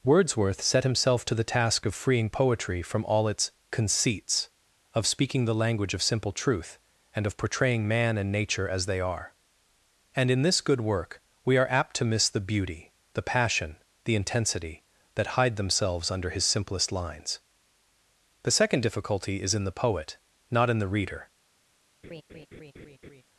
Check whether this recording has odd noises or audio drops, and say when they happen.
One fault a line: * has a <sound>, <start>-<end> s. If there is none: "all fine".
* has a laugh, 22.0-23.2 s